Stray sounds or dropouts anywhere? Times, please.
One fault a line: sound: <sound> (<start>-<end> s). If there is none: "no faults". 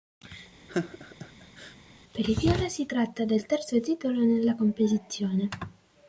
sound: laugh (0.7-1.8 s)